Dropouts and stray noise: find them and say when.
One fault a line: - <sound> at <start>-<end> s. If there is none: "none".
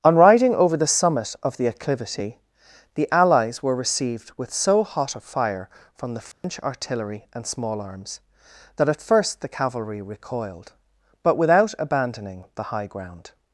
- dropout at 6.3-6.4 s